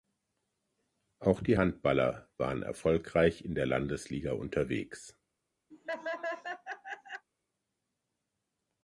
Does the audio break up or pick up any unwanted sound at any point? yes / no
yes